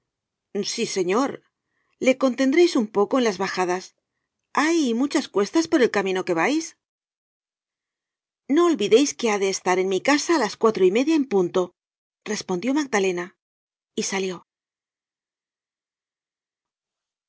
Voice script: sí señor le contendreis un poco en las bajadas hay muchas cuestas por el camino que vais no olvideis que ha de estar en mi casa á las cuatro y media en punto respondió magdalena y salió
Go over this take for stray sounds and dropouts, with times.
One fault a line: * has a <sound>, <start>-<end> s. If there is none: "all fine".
all fine